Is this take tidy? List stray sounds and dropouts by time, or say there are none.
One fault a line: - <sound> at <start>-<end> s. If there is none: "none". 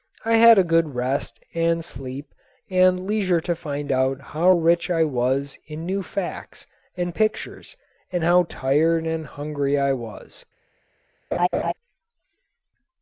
- laugh at 11.3-11.7 s